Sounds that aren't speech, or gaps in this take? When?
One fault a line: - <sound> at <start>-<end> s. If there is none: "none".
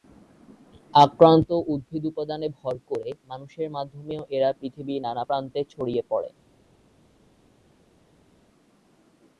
none